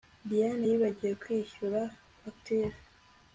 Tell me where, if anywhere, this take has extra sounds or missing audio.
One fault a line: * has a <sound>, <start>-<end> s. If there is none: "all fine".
all fine